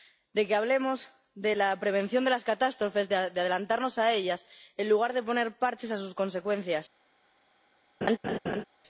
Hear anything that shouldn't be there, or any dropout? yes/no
yes